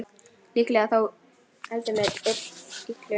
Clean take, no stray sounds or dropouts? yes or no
yes